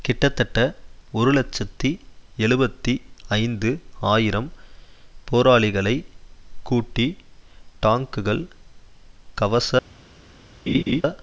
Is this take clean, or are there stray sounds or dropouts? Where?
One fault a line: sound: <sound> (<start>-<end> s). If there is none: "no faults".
sound: laugh (10.7-11.0 s)